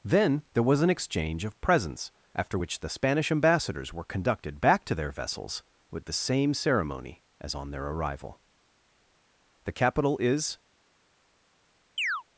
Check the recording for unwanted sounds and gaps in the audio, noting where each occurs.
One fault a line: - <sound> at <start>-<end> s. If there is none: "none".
- chirp at 12.0-12.2 s